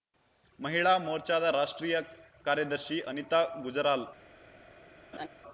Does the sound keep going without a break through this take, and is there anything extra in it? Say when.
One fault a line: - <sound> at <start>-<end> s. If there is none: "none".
- laugh at 5.1-5.3 s